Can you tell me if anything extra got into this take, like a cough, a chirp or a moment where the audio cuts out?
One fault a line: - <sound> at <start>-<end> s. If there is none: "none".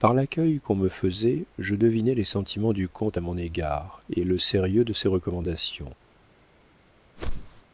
- whoosh at 7.2-7.6 s